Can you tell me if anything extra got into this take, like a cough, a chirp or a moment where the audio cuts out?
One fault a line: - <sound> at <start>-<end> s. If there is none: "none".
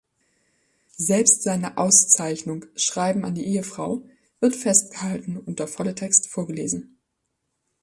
none